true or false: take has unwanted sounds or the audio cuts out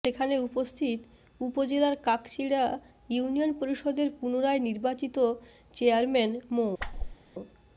true